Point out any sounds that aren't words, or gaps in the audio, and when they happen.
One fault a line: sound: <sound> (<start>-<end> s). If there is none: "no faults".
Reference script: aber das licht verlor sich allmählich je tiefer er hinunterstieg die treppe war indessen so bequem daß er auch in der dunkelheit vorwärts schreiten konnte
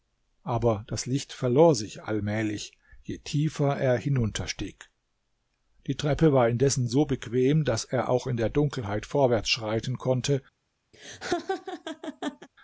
sound: laugh (10.9-12.5 s)